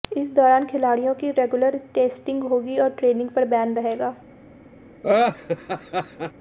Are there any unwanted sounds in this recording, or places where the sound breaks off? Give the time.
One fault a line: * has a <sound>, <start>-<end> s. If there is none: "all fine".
* has a laugh, 5.0-6.3 s